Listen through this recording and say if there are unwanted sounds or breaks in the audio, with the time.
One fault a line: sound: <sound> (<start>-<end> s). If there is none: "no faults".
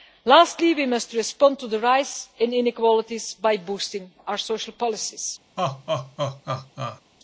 sound: laugh (5.6-7.0 s)